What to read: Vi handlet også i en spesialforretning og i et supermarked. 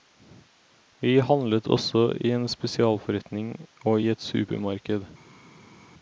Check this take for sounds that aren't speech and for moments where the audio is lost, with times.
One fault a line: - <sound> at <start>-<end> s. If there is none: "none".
none